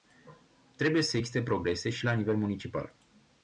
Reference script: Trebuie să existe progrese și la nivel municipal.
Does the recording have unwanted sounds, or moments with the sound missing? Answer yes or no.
no